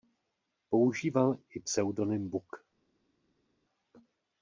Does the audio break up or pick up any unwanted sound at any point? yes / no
no